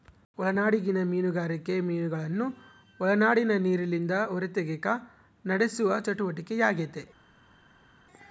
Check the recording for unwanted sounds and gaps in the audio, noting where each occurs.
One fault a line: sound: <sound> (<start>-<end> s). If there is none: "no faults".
no faults